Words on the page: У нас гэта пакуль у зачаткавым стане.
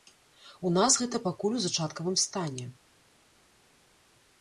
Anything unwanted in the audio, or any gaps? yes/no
no